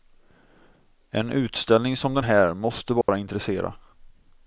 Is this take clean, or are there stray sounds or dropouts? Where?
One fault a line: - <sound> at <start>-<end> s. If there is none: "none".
- dropout at 3.0-3.1 s